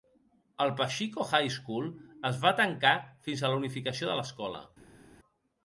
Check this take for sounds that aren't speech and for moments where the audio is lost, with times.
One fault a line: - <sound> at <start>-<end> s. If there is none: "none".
none